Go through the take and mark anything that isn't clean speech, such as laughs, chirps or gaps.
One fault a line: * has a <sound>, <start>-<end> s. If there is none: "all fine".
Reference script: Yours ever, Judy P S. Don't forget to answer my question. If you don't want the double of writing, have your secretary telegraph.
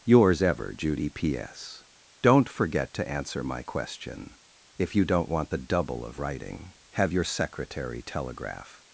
all fine